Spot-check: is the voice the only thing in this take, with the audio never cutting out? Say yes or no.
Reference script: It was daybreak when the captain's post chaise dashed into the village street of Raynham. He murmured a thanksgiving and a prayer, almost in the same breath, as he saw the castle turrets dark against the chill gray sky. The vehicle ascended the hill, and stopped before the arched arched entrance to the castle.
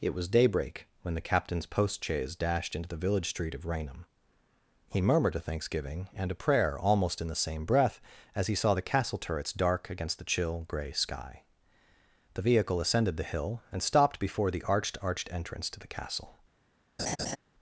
no